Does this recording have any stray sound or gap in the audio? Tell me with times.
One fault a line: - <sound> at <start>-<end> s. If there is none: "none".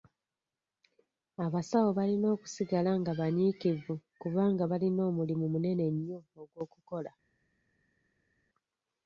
none